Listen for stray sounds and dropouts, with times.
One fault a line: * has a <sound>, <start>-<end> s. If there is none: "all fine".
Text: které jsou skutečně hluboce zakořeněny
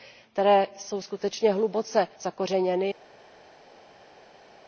all fine